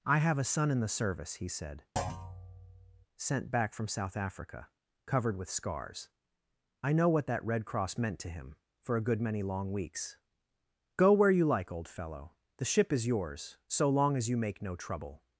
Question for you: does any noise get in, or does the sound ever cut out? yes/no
yes